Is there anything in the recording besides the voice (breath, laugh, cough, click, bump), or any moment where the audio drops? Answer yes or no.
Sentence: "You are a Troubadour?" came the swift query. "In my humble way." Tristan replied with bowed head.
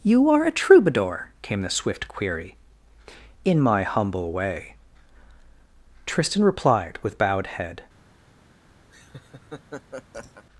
yes